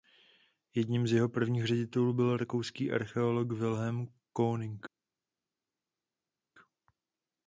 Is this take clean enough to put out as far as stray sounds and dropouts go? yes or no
yes